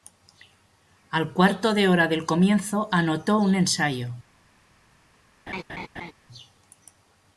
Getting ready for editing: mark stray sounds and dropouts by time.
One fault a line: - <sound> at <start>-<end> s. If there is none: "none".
- laugh at 5.5-6.1 s